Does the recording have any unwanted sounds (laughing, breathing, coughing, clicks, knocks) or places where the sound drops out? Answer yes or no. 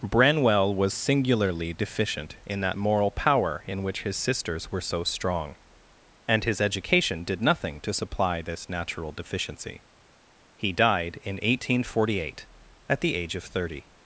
no